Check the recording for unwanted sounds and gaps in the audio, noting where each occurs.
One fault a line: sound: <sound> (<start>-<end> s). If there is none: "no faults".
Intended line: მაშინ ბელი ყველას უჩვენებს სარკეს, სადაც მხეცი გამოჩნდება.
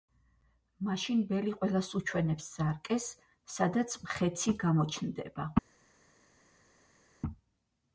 no faults